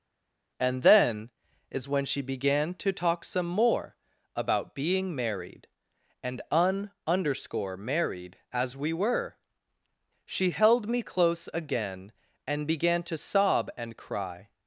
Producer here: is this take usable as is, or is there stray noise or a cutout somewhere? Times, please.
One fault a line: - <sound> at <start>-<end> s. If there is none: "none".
none